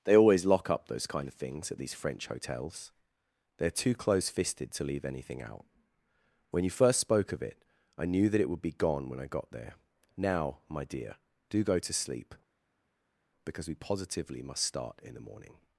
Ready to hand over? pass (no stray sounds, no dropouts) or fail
pass